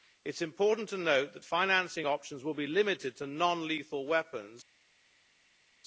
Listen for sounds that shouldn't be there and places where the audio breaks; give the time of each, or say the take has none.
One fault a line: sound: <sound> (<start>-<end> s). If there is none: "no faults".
no faults